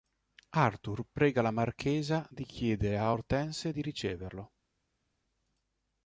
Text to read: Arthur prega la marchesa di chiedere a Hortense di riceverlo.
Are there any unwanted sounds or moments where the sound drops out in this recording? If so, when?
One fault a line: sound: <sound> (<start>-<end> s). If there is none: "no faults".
no faults